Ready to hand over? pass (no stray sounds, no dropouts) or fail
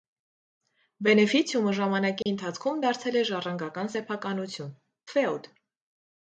fail